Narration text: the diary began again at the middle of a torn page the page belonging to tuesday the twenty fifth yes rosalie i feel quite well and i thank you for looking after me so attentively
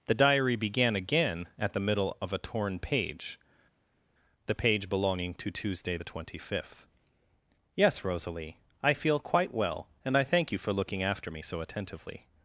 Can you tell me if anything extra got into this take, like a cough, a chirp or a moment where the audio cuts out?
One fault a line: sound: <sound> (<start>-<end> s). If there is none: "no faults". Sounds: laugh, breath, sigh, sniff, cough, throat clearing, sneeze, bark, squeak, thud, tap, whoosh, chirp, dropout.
no faults